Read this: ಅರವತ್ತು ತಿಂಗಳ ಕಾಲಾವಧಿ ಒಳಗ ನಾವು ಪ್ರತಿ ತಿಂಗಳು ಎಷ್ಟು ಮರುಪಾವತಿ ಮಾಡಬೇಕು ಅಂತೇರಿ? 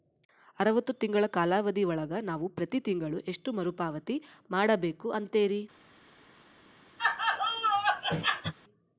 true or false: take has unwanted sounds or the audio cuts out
true